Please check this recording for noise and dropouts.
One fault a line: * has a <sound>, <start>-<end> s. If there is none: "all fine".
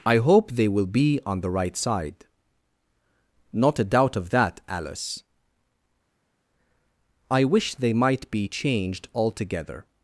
all fine